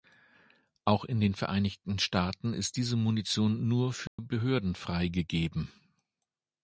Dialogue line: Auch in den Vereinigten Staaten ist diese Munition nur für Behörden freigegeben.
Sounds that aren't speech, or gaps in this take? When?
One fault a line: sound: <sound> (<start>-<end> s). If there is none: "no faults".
sound: dropout (4.1-4.2 s)